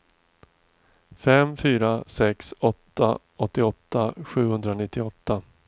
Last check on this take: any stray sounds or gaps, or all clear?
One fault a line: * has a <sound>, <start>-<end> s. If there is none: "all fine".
all fine